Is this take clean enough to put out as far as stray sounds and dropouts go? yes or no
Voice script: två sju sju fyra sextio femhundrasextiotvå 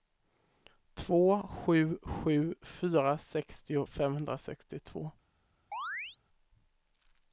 no